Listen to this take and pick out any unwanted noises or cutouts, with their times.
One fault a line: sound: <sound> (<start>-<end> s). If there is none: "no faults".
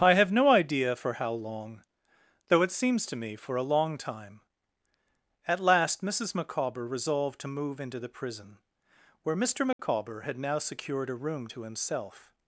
sound: dropout (9.7-9.8 s)